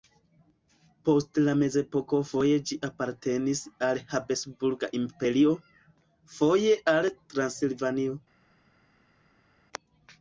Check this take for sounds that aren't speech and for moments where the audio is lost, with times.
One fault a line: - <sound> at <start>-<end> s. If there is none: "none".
none